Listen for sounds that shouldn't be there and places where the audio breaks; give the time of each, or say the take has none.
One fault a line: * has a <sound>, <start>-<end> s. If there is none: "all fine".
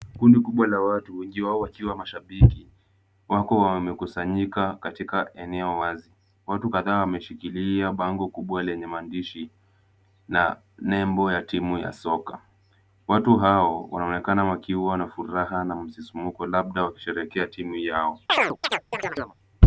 * has a chirp, 18.3-19.4 s